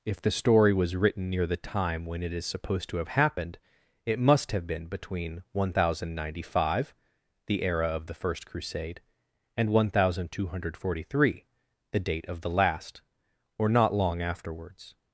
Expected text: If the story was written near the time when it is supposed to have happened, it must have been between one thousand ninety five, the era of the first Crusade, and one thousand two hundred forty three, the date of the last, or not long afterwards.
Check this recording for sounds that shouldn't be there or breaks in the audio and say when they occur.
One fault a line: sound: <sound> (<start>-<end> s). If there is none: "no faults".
no faults